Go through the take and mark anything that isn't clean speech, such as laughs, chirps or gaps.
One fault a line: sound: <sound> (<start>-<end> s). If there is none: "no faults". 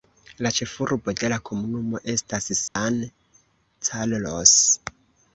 sound: dropout (2.7-2.8 s)